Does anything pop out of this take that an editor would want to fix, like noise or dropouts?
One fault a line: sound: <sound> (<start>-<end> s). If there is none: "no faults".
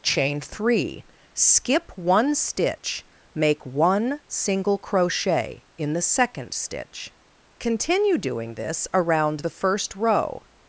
no faults